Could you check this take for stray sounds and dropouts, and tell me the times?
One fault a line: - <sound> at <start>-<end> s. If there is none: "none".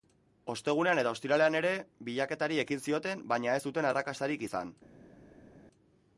none